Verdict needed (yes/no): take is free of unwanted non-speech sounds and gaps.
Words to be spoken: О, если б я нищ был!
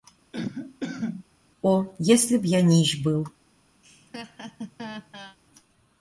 no